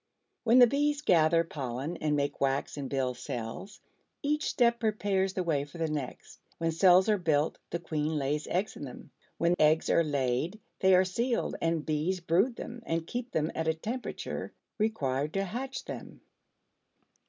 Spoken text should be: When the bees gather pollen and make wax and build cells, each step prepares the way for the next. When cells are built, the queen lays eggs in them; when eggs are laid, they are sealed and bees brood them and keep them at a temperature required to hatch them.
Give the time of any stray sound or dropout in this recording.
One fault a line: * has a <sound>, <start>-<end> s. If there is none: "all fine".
all fine